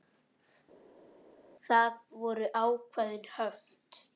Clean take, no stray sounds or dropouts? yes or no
yes